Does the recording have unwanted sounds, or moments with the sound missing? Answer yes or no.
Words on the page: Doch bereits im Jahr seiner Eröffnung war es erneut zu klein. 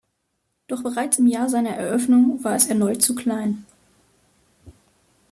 no